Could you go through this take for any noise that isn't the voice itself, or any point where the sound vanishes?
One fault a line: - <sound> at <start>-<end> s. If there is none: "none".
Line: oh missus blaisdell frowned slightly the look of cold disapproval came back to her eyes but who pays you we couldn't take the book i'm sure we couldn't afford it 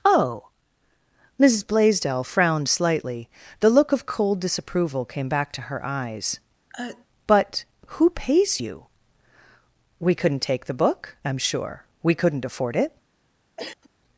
- sneeze at 6.7-7.1 s
- cough at 13.6-13.9 s